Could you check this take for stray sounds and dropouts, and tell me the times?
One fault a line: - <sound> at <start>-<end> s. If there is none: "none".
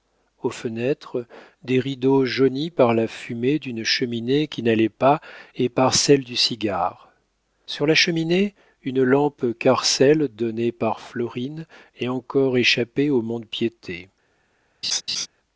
- laugh at 14.8-15.3 s